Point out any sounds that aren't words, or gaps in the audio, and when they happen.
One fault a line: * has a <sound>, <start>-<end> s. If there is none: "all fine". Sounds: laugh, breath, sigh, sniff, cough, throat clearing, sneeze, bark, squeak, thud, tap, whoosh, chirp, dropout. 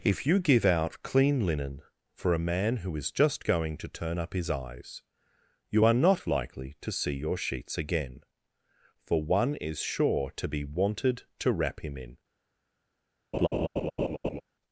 * has a laugh, 13.3-14.4 s